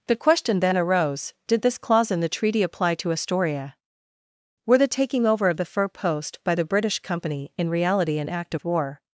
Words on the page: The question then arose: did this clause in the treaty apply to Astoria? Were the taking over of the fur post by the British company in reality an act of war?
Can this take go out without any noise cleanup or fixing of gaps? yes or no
yes